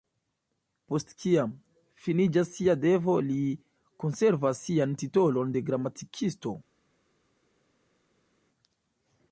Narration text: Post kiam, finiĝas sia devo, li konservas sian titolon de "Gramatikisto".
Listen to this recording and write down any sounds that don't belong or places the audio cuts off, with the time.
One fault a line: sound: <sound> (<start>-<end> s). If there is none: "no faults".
no faults